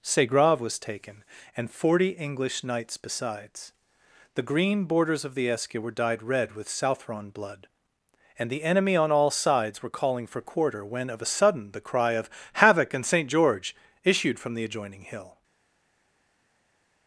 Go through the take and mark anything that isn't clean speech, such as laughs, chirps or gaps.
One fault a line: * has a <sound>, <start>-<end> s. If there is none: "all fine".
all fine